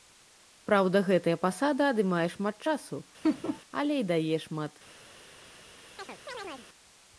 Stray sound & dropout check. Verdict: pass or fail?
fail